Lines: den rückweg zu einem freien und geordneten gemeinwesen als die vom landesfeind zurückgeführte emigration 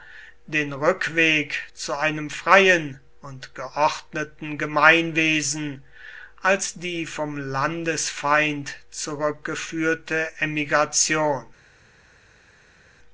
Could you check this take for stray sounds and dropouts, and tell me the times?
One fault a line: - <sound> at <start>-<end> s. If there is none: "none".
none